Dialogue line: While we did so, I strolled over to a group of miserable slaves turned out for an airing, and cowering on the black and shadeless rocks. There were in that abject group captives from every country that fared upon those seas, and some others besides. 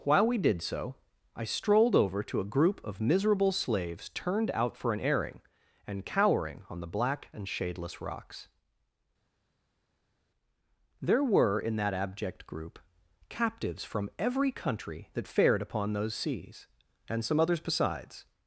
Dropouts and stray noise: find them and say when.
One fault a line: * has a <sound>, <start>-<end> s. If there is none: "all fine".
all fine